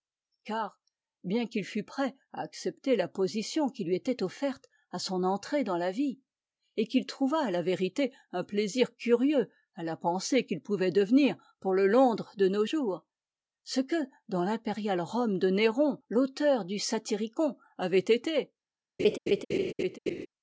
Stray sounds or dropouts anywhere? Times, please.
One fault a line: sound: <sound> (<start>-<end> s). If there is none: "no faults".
sound: laugh (19.0-20.3 s)